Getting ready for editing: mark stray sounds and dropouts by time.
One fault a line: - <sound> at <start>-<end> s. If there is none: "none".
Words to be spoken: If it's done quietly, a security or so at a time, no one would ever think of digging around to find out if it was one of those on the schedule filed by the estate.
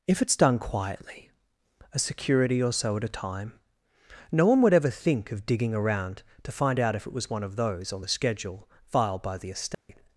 - dropout at 9.7-9.9 s